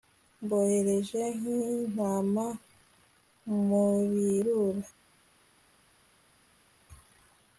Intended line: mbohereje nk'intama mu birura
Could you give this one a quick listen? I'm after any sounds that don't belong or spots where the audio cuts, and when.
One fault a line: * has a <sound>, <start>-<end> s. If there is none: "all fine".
all fine